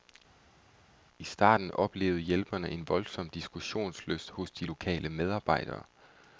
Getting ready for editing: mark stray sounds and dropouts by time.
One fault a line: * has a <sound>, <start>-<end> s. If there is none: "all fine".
all fine